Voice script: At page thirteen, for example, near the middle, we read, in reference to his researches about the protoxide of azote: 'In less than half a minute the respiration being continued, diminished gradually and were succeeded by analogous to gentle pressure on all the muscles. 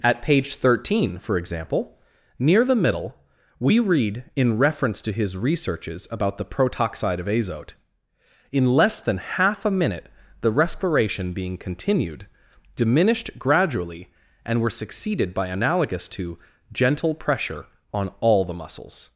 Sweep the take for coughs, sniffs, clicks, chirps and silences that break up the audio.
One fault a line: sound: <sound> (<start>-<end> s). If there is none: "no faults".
no faults